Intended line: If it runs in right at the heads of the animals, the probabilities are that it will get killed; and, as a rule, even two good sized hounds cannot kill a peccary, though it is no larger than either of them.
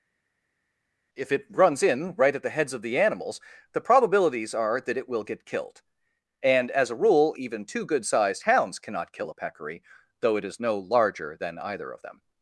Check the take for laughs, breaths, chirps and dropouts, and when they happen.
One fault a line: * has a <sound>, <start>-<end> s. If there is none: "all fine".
all fine